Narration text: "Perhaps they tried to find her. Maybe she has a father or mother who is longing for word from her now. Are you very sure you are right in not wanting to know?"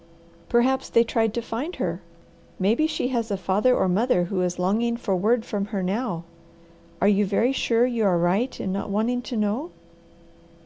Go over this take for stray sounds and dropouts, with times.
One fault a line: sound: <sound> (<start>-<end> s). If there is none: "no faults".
no faults